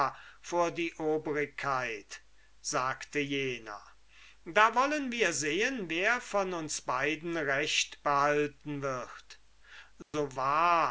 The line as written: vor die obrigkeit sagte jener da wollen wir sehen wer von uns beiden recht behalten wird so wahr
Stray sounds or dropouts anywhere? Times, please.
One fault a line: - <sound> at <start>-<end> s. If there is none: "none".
- dropout at 10.0-10.1 s